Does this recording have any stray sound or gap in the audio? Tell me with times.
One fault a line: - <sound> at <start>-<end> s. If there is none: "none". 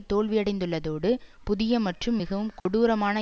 - dropout at 2.6-2.7 s